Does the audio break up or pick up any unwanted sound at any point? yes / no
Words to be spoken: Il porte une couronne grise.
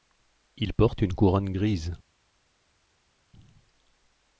no